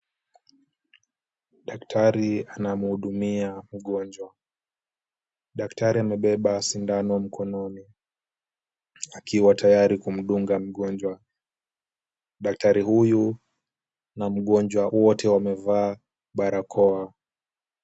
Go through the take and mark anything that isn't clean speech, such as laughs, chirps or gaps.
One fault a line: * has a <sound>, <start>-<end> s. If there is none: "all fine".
all fine